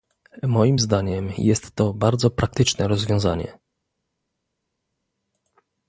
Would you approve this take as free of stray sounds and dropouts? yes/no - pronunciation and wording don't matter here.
yes